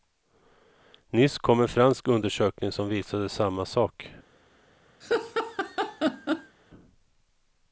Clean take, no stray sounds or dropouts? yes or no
no